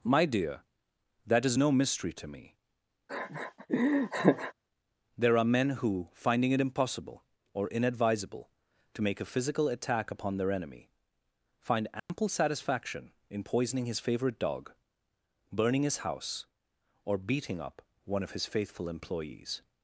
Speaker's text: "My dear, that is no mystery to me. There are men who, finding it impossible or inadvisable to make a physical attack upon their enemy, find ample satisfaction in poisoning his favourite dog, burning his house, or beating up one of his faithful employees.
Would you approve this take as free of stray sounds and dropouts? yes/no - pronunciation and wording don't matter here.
no